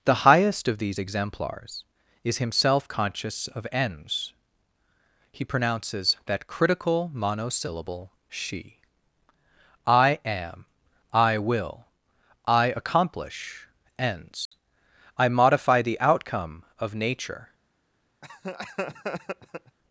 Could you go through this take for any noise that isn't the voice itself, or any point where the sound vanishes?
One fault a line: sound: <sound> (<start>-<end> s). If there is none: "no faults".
sound: dropout (14.5-14.5 s)
sound: laugh (18.2-19.8 s)